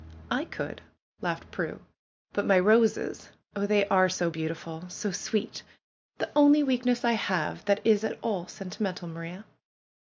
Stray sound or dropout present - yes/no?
no